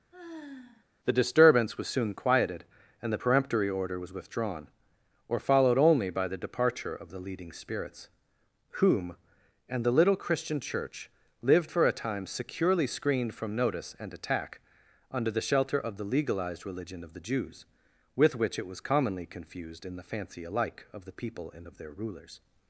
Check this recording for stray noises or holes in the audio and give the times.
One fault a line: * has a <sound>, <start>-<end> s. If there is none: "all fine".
* has a sigh, 0.1-0.8 s